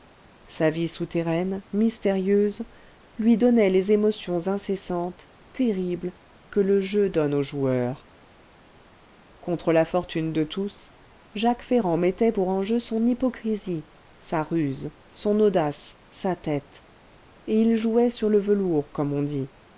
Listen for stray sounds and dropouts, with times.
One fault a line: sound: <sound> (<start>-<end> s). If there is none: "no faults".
no faults